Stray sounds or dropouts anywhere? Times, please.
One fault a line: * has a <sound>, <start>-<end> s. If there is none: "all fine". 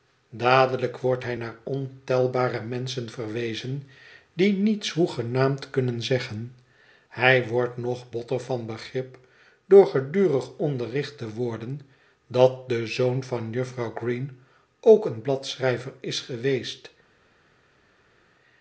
all fine